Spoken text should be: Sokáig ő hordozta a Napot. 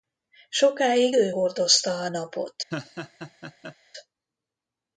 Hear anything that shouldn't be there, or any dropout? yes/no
yes